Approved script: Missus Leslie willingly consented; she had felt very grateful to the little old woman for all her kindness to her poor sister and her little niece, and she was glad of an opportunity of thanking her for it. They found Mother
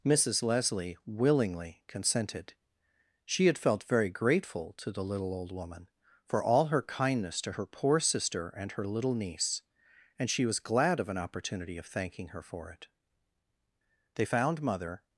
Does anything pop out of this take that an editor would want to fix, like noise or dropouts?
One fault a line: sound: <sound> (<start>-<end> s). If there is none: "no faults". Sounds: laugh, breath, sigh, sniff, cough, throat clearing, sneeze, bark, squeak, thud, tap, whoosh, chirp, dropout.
no faults